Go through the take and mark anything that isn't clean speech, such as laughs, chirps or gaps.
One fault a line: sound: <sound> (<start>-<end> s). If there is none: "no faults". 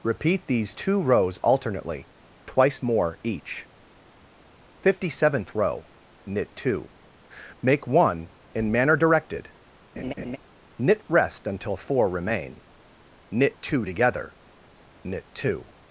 sound: laugh (10.0-10.4 s)